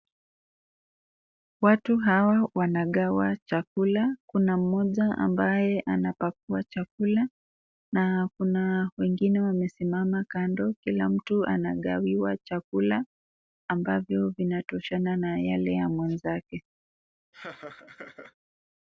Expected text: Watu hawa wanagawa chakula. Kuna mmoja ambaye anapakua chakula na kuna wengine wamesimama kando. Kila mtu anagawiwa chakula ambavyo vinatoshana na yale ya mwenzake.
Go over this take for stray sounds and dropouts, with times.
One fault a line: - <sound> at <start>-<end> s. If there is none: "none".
- laugh at 17.3-18.3 s